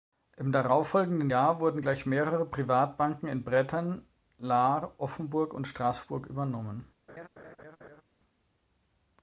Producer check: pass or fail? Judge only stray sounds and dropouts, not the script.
fail